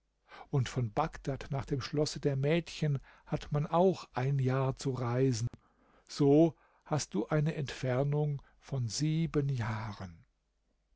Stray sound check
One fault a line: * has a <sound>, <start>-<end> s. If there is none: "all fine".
* has a dropout, 5.5-5.5 s